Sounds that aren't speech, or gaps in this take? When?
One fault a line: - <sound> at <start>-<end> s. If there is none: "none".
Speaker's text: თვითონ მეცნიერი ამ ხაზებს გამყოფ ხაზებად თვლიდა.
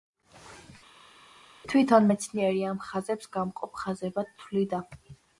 none